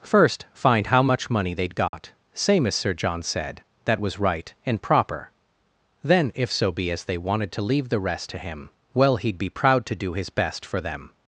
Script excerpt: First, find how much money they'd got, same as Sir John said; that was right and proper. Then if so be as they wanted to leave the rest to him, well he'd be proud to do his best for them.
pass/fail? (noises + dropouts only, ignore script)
fail